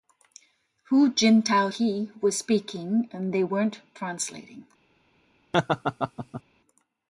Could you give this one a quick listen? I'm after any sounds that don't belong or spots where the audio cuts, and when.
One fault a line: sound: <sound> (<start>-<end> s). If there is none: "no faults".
sound: laugh (5.5-6.4 s)